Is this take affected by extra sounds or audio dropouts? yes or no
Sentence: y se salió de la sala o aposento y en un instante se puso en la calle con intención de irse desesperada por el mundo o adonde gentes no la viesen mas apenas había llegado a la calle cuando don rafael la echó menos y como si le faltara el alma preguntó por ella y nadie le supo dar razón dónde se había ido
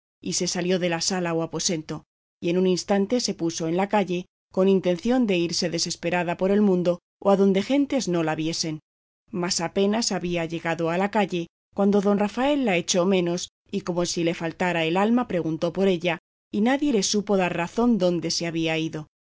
no